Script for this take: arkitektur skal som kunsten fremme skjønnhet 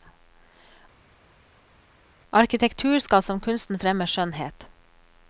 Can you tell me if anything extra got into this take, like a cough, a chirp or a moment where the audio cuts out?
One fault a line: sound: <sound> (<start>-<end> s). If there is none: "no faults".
no faults